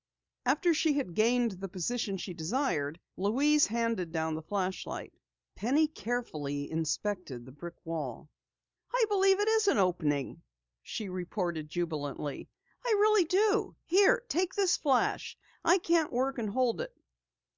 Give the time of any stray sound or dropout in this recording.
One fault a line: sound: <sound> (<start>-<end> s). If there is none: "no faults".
no faults